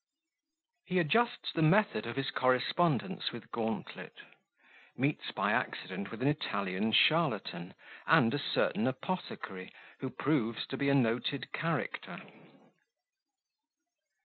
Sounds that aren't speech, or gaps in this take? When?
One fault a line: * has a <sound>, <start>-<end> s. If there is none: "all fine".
all fine